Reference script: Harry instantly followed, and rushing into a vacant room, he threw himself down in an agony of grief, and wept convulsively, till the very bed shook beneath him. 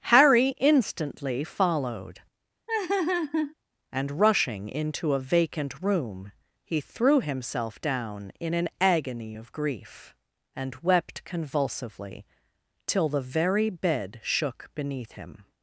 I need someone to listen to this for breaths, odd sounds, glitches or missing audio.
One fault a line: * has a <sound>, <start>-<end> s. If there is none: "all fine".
* has a laugh, 2.7-3.5 s